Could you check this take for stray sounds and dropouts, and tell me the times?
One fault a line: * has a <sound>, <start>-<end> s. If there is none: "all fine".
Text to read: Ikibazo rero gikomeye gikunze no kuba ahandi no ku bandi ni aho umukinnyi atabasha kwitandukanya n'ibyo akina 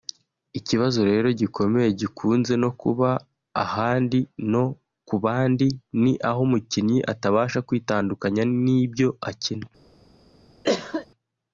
* has a cough, 10.6-11.1 s